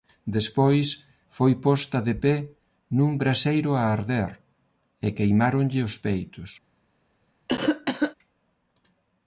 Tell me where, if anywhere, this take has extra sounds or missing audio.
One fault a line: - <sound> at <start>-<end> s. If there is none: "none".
- cough at 7.5-8.1 s